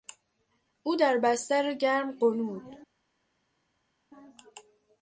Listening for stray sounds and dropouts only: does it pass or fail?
pass